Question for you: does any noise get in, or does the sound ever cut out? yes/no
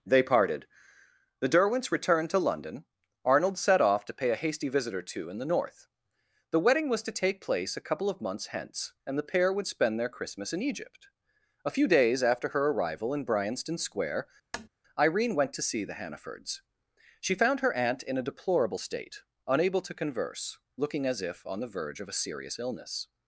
yes